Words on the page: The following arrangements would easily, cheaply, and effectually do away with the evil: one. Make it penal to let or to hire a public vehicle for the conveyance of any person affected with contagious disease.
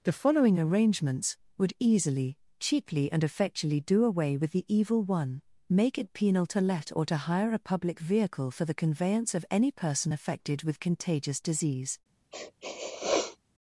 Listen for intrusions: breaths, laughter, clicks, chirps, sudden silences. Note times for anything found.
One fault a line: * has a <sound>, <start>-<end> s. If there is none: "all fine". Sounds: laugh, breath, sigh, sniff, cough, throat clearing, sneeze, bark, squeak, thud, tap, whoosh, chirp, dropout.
* has a sniff, 12.3-13.4 s